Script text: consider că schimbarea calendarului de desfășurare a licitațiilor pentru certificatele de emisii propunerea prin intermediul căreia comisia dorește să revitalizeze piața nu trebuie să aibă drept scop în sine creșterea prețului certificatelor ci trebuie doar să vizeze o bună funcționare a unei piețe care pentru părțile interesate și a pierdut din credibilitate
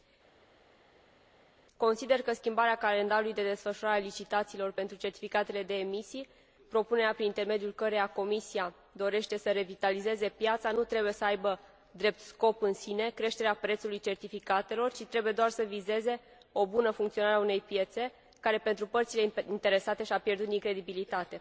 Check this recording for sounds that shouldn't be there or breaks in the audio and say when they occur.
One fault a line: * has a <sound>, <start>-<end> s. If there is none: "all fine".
all fine